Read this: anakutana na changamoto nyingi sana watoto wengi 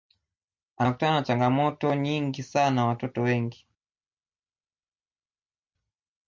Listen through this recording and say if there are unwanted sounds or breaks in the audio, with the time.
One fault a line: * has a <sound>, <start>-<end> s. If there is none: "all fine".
all fine